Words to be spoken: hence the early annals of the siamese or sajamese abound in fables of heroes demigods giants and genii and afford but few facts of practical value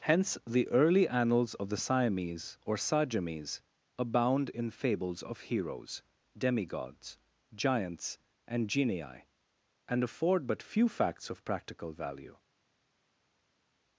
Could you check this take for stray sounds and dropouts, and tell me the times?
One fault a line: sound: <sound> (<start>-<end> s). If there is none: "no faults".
no faults